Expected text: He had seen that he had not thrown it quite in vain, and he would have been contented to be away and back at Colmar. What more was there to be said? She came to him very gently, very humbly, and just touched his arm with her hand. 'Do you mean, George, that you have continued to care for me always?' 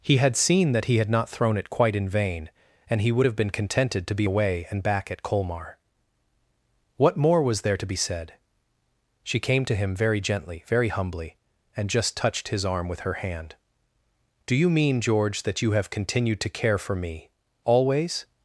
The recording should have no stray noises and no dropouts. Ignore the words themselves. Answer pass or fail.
pass